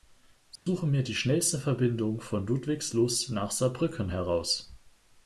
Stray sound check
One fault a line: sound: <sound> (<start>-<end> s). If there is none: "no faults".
sound: dropout (0.6-0.7 s)